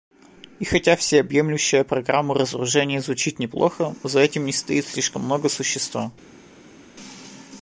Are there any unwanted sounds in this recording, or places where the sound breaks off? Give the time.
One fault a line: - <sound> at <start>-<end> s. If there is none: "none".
none